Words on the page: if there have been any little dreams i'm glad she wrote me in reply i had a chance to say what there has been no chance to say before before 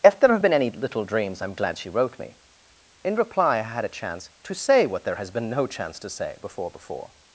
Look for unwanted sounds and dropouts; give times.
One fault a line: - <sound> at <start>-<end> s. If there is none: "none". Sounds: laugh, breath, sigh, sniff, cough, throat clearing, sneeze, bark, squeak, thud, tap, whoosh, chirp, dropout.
none